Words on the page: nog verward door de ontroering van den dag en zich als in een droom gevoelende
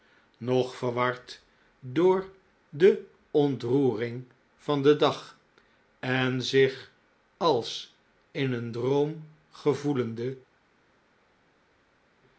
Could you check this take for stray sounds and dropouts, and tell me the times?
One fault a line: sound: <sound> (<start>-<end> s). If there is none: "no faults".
no faults